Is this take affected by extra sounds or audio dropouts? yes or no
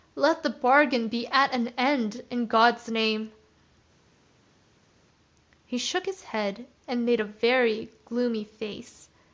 no